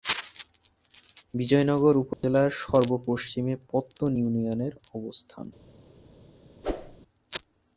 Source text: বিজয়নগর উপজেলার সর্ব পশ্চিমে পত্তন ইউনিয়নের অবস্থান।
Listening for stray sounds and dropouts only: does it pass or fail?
fail